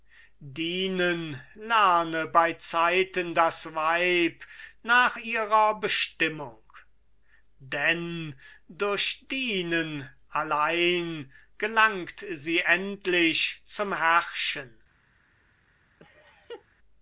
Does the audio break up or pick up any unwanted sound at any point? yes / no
yes